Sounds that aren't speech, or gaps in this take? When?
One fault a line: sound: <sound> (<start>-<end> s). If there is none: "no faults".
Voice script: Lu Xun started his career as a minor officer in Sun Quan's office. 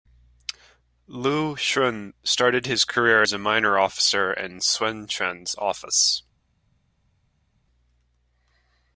no faults